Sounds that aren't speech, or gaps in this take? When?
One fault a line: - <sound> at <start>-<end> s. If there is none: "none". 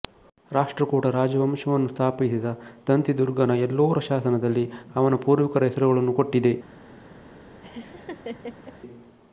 - laugh at 7.6-8.8 s